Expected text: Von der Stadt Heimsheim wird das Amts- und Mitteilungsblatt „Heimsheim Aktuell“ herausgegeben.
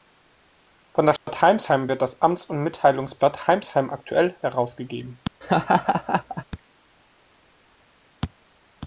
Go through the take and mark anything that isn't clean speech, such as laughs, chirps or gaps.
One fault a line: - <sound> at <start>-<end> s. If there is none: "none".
- dropout at 1.2-1.3 s
- laugh at 5.4-6.4 s